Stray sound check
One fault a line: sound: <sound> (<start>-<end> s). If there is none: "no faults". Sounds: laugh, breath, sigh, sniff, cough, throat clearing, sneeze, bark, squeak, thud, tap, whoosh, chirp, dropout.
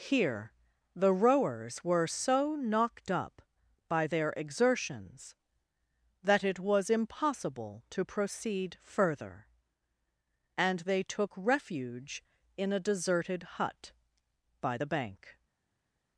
no faults